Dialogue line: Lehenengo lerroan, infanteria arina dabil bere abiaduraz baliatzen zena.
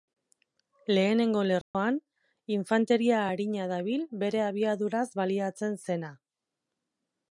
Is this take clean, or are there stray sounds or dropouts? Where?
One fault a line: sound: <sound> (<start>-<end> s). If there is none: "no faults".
sound: dropout (1.6-1.7 s)